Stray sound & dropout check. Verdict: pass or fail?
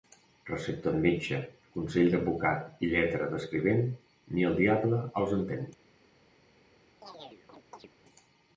fail